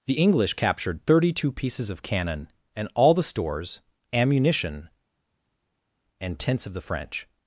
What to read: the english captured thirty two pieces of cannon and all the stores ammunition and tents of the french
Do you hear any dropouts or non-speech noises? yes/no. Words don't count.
no